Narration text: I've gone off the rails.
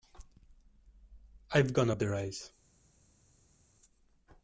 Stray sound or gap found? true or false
false